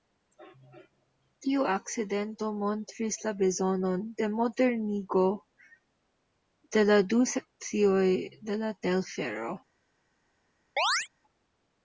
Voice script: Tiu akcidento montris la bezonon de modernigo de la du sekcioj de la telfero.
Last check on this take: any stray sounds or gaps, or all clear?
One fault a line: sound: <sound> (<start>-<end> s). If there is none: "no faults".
sound: chirp (10.8-11.1 s)